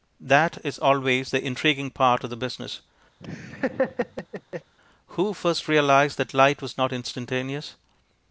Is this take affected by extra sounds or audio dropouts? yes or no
yes